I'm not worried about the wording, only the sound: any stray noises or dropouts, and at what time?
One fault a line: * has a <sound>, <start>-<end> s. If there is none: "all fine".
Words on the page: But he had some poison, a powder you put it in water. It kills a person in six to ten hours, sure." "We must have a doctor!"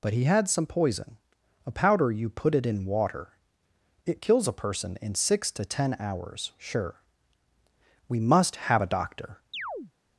* has a chirp, 9.5-9.9 s